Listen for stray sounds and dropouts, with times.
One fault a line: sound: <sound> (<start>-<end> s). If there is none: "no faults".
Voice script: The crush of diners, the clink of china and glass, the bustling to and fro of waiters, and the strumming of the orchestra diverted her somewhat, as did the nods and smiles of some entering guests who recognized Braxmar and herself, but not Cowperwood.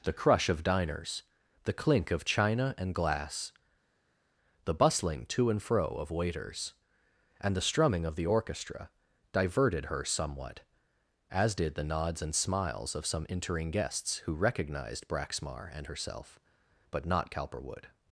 no faults